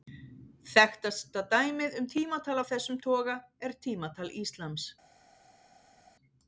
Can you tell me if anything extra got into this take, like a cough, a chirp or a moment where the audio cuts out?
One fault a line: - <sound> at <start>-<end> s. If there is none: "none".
none